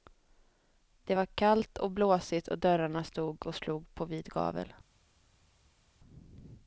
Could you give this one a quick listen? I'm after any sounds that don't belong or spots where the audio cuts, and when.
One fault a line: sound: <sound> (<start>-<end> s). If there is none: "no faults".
no faults